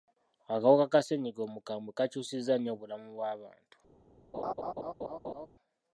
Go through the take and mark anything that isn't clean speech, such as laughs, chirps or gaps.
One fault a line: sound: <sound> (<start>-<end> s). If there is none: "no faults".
sound: laugh (4.3-5.5 s)